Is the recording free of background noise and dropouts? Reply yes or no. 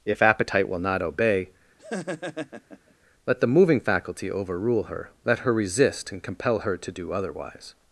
no